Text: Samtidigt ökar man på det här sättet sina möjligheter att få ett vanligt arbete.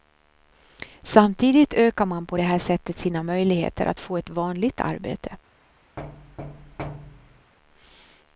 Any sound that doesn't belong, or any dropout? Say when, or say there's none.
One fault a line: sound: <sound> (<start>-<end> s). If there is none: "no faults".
sound: thud (6.0-7.5 s)